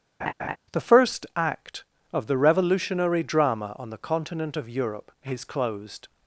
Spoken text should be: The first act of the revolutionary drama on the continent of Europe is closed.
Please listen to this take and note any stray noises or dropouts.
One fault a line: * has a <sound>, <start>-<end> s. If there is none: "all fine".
* has a laugh, 0.2-0.6 s